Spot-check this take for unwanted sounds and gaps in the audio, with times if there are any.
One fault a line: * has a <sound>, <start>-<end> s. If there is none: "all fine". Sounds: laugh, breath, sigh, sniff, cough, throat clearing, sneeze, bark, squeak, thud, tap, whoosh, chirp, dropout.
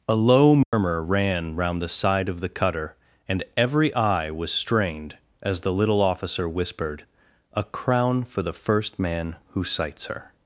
* has a dropout, 0.6-0.7 s